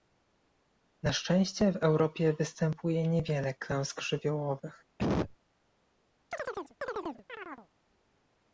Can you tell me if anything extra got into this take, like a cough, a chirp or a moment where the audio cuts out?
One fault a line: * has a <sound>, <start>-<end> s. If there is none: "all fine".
* has a cough, 5.0-5.4 s
* has a chirp, 6.3-7.7 s